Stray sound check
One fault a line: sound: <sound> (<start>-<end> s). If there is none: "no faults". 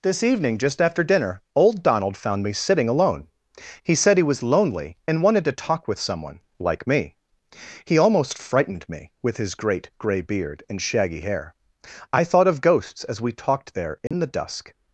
sound: dropout (14.1-14.1 s)